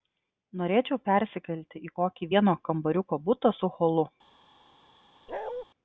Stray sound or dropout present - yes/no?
yes